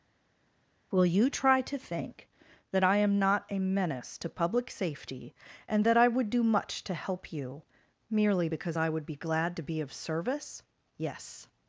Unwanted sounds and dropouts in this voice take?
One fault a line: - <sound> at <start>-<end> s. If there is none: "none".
none